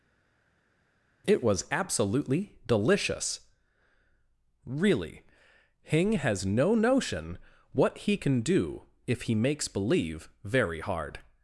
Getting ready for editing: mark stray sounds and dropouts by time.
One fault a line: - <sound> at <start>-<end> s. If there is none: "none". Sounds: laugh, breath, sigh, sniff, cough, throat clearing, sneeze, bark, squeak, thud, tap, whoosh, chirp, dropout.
none